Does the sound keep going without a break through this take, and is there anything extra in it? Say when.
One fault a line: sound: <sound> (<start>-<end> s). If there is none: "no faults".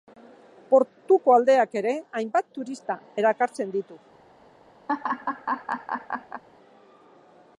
sound: laugh (4.9-6.4 s)